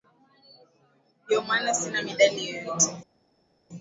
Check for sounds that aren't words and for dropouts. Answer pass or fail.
pass